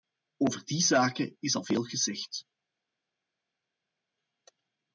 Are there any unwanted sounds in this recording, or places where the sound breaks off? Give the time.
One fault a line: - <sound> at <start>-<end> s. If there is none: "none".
none